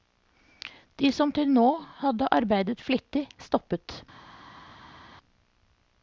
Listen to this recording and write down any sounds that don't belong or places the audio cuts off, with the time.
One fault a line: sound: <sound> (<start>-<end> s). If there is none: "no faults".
no faults